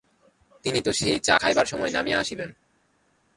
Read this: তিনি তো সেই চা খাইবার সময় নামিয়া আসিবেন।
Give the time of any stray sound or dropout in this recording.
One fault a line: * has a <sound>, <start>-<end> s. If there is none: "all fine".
all fine